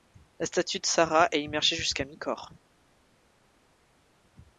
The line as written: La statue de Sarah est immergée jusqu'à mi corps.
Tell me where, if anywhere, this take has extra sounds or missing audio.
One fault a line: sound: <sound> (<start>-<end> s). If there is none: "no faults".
no faults